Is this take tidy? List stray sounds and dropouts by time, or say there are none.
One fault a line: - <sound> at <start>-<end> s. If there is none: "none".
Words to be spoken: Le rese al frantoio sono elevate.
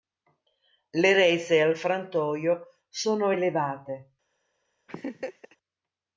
- laugh at 4.9-5.6 s